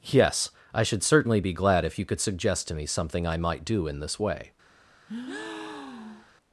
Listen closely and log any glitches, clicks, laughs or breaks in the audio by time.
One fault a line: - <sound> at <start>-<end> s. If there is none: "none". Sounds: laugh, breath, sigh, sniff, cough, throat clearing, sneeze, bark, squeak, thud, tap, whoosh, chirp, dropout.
- breath at 5.1-6.3 s